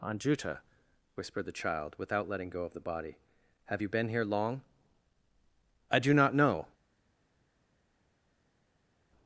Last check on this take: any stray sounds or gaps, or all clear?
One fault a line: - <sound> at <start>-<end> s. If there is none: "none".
none